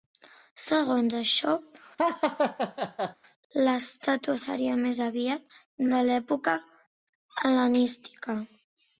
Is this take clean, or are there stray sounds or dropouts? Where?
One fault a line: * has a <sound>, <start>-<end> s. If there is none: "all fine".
* has a laugh, 2.0-3.2 s